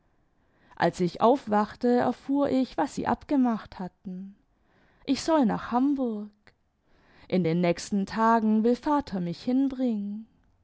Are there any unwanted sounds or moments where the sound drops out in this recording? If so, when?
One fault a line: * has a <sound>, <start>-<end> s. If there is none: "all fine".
all fine